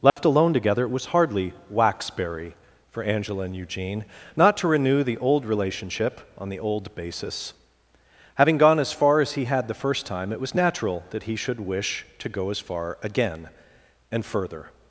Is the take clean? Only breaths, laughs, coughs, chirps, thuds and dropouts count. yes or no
no